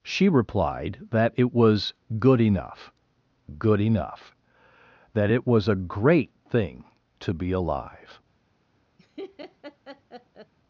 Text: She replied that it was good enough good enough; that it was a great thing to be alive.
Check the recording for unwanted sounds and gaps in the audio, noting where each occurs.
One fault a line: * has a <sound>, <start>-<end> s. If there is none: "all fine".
* has a laugh, 9.0-10.5 s